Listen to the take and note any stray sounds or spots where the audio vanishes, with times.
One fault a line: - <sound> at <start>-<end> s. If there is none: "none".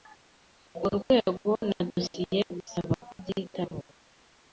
none